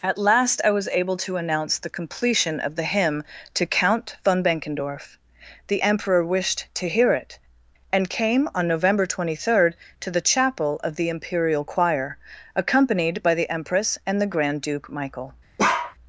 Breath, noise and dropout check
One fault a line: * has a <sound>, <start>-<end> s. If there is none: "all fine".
* has a bark, 15.6-16.0 s